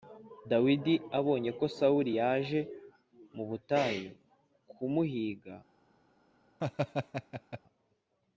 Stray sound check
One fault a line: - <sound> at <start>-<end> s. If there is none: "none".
- laugh at 6.6-7.6 s